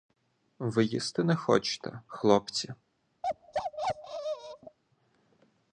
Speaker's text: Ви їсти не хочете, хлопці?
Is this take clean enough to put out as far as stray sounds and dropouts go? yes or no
no